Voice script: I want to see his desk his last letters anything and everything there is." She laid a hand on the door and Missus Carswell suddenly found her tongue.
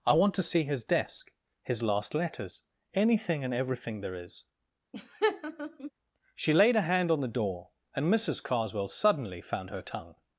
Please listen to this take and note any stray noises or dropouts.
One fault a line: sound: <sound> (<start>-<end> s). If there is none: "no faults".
sound: laugh (4.9-5.9 s)